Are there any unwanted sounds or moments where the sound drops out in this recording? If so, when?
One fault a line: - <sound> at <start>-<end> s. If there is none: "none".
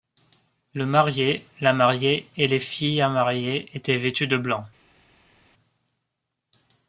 none